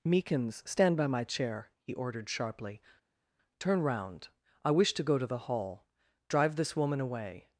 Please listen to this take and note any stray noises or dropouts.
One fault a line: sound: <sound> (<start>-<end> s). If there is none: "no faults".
no faults